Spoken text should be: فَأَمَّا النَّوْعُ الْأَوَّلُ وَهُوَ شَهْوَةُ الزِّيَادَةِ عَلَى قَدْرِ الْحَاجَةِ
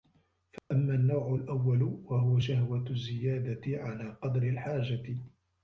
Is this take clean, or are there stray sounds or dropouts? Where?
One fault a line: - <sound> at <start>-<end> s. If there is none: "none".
- dropout at 0.6-0.7 s